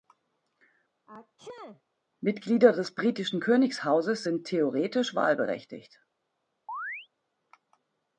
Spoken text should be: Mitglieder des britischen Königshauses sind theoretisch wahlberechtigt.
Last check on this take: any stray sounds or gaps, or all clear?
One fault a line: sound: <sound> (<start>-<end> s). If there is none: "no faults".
sound: sneeze (1.1-1.8 s)
sound: chirp (6.7-7.1 s)